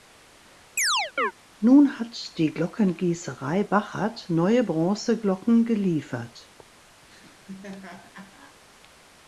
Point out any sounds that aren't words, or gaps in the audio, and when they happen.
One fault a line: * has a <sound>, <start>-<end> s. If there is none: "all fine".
* has a chirp, 0.8-1.3 s
* has a laugh, 7.0-8.6 s